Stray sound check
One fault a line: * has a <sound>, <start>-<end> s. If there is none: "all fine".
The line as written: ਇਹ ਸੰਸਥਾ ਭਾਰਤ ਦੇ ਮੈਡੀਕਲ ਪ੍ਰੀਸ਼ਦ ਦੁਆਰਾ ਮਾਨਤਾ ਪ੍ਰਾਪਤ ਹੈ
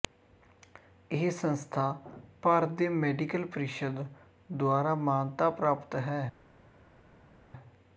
all fine